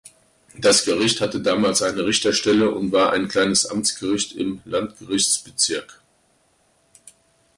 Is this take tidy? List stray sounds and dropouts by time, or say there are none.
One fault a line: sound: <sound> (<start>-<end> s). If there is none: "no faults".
no faults